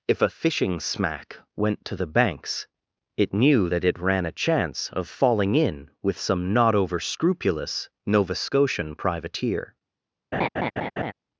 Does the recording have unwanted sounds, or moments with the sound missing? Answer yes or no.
yes